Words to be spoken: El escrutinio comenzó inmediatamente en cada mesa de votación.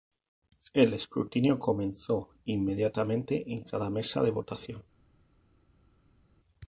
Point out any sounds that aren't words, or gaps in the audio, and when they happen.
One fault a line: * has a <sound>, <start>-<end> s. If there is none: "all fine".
all fine